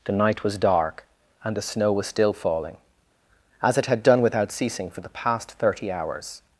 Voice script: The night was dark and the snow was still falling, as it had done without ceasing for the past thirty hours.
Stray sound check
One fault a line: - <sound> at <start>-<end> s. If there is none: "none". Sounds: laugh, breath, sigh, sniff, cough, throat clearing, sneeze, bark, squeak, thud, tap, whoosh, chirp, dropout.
none